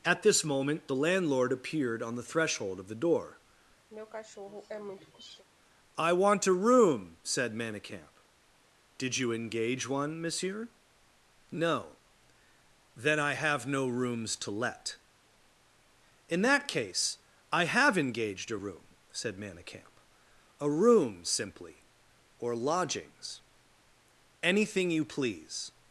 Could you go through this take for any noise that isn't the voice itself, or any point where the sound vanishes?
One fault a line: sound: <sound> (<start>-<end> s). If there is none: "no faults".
sound: throat clearing (3.9-5.4 s)